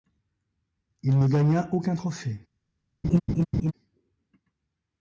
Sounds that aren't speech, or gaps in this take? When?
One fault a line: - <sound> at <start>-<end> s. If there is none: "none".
- laugh at 3.0-3.7 s